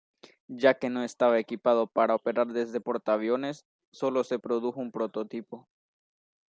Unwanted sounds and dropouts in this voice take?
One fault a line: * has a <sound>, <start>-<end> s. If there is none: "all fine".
all fine